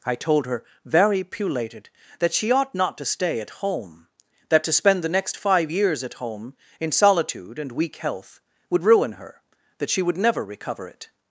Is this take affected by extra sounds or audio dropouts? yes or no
no